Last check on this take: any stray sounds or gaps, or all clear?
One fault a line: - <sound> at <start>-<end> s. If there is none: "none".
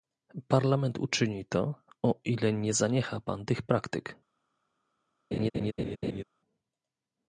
- laugh at 5.3-6.2 s